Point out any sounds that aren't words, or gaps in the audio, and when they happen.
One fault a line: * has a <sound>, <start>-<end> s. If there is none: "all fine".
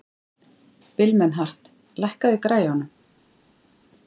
all fine